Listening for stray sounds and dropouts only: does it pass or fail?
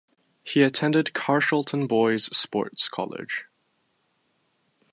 pass